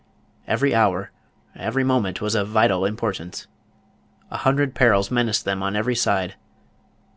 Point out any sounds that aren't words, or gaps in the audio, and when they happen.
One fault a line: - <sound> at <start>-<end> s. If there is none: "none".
none